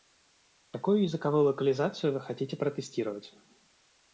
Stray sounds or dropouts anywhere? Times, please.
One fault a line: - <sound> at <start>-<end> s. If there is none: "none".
none